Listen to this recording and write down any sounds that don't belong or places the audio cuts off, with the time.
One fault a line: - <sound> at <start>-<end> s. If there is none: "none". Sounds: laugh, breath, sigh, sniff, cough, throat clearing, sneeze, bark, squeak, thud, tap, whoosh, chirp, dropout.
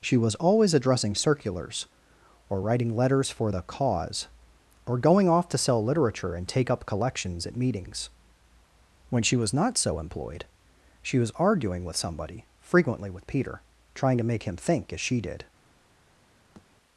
- thud at 16.6-16.7 s